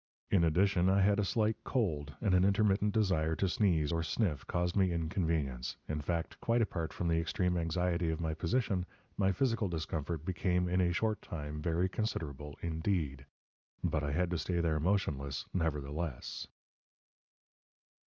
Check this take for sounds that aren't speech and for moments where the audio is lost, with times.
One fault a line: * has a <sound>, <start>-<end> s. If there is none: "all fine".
all fine